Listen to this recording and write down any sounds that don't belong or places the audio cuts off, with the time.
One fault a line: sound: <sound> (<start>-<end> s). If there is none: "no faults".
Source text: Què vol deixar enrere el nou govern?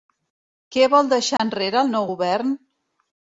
sound: dropout (1.4-1.4 s)